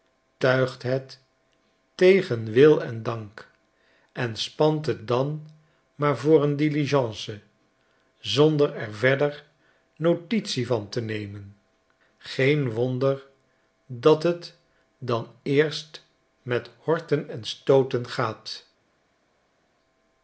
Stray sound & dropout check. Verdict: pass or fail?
pass